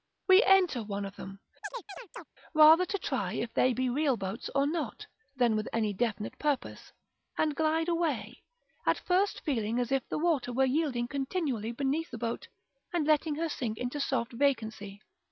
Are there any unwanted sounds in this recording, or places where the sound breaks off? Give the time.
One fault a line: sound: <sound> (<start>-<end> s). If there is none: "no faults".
sound: chirp (1.6-2.3 s)